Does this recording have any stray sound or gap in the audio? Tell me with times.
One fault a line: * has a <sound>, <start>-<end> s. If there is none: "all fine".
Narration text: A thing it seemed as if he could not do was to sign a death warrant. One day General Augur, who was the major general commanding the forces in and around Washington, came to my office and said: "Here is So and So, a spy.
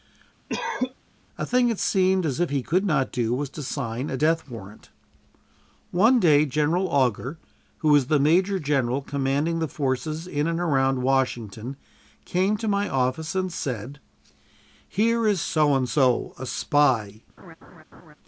* has a cough, 0.5-0.9 s
* has a laugh, 17.4-18.2 s